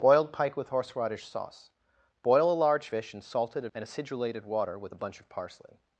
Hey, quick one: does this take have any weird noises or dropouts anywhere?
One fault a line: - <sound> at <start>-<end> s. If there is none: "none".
none